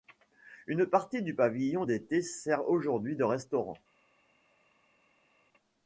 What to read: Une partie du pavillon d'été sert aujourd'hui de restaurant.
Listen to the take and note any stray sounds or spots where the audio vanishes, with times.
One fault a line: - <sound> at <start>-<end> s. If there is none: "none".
none